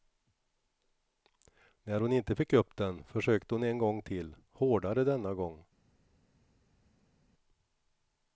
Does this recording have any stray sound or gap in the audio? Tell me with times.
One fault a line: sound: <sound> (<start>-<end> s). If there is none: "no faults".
no faults